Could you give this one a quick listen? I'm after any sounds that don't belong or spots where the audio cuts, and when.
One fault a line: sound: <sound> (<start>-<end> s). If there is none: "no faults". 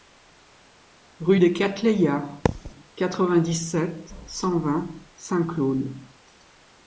sound: thud (2.5-2.7 s)